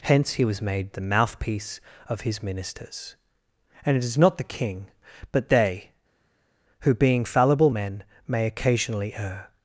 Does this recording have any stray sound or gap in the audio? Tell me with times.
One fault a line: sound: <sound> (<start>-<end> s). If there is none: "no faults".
no faults